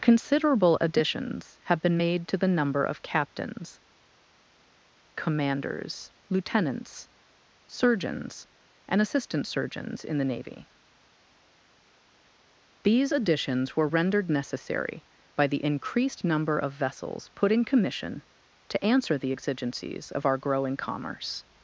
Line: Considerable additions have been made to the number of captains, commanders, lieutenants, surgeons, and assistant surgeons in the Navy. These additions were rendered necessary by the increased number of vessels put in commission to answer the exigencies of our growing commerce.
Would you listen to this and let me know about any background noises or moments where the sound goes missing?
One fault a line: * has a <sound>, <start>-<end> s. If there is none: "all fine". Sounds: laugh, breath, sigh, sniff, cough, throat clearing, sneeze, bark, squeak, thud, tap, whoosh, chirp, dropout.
all fine